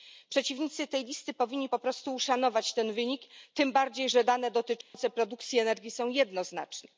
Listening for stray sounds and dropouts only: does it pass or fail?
fail